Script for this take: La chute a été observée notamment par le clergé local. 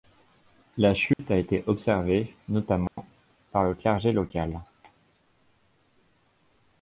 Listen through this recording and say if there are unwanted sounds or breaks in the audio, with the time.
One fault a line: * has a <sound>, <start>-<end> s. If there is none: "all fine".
* has a dropout, 1.1-1.2 s
* has a dropout, 2.9-3.0 s